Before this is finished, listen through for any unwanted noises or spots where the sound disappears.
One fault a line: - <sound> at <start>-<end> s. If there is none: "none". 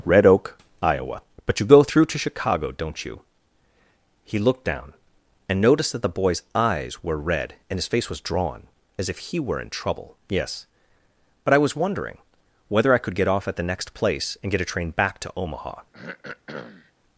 - throat clearing at 15.9-16.9 s